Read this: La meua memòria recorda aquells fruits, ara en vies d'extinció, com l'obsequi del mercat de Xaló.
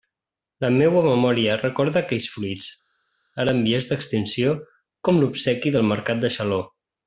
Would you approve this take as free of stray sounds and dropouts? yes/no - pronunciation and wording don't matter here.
yes